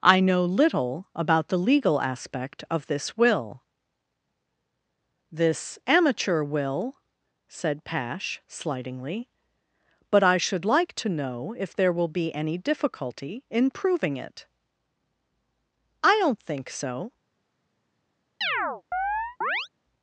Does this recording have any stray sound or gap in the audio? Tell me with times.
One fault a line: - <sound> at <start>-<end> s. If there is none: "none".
- chirp at 18.4-19.7 s